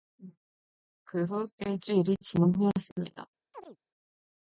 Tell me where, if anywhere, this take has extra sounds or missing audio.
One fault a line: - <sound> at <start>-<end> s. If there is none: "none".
- chirp at 3.5-3.8 s